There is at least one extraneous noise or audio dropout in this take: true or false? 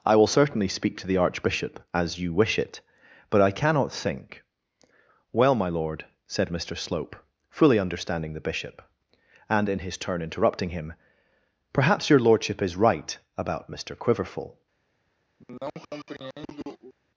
true